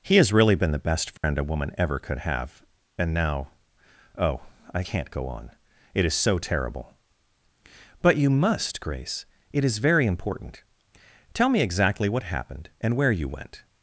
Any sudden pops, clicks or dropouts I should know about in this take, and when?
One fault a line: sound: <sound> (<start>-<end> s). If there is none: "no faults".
sound: dropout (1.2-1.2 s)